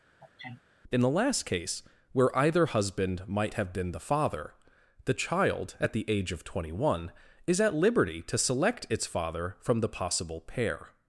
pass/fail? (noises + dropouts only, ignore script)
fail